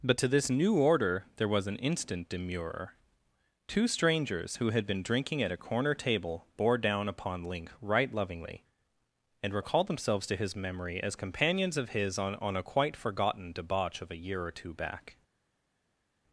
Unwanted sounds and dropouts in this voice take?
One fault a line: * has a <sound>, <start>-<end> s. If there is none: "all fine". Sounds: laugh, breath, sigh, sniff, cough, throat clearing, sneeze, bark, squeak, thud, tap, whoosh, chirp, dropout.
all fine